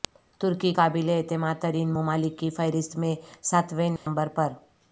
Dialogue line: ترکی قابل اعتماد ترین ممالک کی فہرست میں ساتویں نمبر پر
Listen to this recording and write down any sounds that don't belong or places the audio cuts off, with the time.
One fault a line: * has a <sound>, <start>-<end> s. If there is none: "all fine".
* has a dropout, 4.0-4.1 s